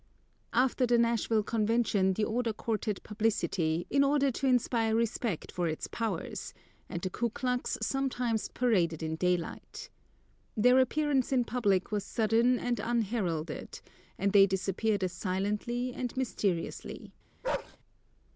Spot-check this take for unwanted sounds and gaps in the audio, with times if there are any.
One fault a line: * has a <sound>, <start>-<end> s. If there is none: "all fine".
* has a bark, 17.4-17.8 s